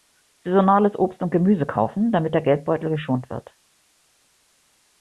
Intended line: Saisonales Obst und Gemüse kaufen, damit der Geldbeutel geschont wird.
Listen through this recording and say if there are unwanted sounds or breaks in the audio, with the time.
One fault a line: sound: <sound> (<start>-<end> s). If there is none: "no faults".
no faults